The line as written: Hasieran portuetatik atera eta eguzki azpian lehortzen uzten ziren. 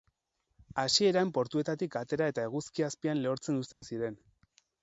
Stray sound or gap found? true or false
true